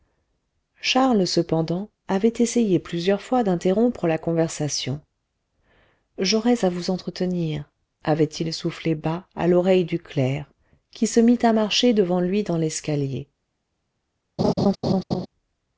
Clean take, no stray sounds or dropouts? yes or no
no